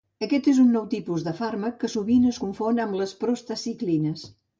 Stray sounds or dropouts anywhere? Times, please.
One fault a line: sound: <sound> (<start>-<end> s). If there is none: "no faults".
no faults